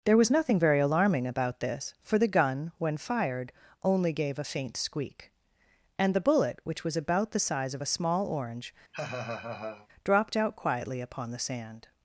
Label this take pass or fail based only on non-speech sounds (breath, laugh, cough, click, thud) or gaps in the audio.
fail